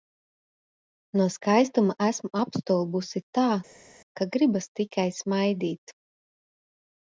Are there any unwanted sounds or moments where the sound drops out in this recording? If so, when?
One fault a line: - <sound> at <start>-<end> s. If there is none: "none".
none